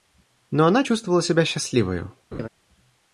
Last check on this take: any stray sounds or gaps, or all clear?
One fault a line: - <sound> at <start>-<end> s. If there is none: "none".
- laugh at 2.3-2.5 s